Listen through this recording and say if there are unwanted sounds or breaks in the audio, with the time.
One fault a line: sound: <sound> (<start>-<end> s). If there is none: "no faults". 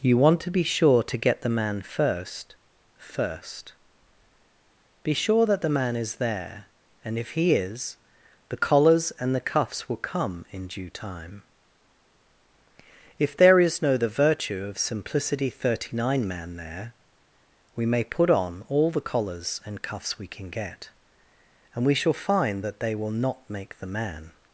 no faults